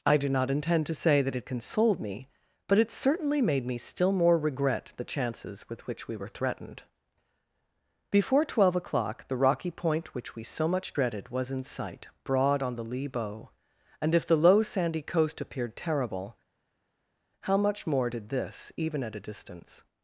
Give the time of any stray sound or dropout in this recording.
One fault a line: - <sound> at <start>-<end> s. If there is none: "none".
none